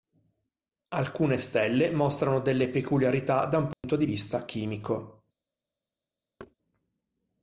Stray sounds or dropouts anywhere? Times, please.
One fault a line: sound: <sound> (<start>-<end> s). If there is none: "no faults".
sound: dropout (3.7-3.8 s)
sound: thud (6.4-6.6 s)